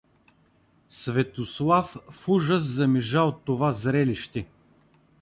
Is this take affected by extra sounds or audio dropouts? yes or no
no